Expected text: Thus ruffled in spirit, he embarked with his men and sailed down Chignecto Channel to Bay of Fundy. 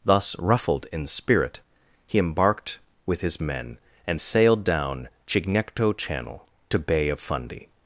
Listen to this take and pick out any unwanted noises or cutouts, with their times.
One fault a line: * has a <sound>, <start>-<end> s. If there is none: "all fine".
all fine